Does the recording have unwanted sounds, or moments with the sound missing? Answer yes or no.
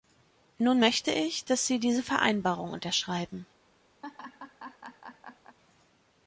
yes